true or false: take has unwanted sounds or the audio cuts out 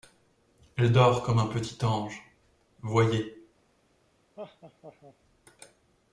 true